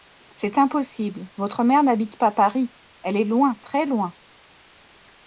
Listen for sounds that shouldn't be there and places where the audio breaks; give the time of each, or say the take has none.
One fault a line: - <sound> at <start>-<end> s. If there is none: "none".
none